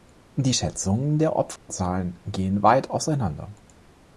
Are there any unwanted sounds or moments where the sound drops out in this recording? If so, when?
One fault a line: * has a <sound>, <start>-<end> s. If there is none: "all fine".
* has a dropout, 1.6-1.7 s